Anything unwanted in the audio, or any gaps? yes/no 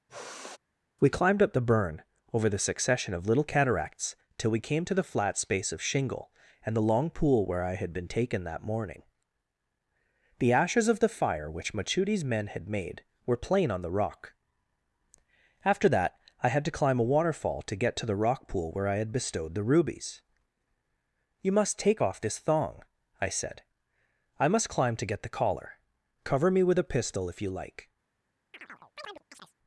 yes